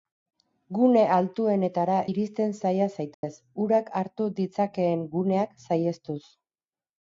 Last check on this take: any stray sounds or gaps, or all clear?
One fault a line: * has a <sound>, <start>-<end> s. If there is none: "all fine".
* has a dropout, 3.1-3.2 s